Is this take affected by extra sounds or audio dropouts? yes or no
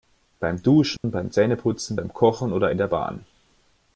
yes